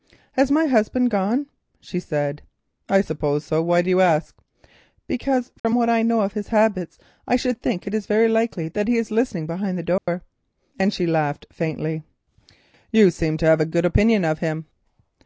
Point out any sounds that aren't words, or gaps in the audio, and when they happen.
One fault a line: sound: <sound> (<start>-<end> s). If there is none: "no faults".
sound: dropout (5.6-5.6 s)
sound: dropout (10.0-10.1 s)